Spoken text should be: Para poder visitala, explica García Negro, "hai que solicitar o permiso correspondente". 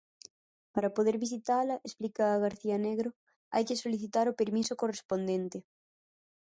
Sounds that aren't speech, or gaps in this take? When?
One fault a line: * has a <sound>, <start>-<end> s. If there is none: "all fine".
all fine